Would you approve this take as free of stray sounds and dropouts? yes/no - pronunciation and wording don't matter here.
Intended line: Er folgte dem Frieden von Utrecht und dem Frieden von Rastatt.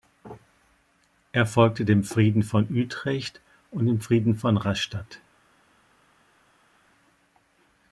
yes